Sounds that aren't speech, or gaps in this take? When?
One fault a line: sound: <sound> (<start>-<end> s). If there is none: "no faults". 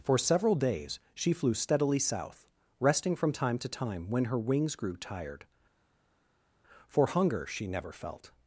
no faults